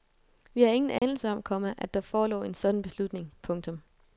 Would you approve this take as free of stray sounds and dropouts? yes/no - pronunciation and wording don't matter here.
no